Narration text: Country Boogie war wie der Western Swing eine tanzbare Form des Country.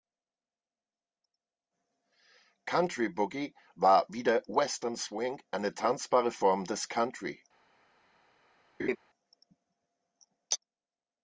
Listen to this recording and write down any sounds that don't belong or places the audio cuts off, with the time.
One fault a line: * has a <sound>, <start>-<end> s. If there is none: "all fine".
* has a laugh, 8.8-9.0 s